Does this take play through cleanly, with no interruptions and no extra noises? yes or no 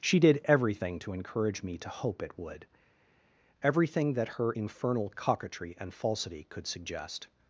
yes